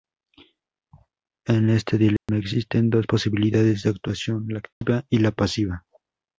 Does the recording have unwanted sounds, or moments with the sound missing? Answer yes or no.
yes